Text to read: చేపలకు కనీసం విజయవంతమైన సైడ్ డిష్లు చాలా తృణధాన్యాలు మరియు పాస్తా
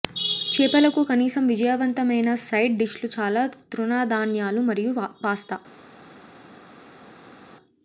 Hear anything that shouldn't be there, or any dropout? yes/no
no